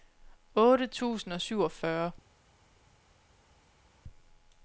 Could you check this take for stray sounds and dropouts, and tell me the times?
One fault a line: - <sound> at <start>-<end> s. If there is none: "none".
none